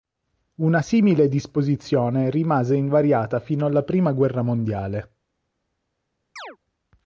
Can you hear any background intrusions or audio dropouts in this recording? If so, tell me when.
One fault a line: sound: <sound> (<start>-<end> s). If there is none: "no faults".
sound: chirp (6.4-6.6 s)